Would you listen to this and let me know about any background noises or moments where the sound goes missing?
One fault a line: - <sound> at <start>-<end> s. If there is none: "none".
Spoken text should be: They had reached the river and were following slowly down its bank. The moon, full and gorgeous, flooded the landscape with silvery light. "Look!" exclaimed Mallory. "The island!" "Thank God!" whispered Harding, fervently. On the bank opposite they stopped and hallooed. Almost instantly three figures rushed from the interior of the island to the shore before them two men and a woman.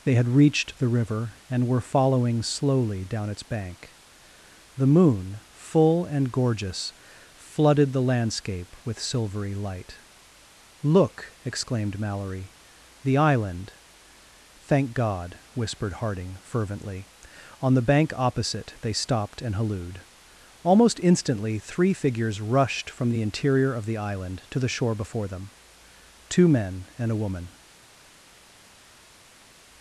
none